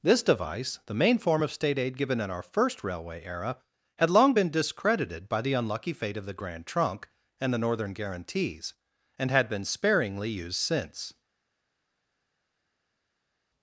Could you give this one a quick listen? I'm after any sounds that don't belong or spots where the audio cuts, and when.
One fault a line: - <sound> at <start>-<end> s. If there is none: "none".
none